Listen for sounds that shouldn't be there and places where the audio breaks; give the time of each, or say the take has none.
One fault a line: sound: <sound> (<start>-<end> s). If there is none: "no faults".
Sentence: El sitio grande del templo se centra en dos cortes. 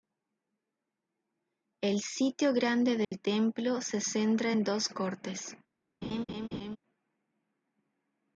sound: dropout (3.0-3.1 s)
sound: laugh (6.0-6.8 s)